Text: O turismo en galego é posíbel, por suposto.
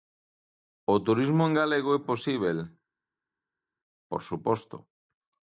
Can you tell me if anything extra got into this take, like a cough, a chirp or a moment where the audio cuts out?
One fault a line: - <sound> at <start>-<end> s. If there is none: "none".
none